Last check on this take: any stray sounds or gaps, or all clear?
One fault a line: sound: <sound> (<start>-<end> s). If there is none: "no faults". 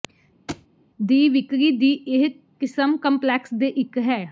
sound: thud (0.5-0.7 s)